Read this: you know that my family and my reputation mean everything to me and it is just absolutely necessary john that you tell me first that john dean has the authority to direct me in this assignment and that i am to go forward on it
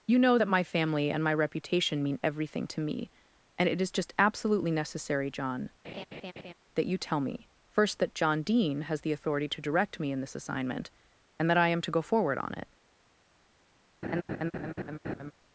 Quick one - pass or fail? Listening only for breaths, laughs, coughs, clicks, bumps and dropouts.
fail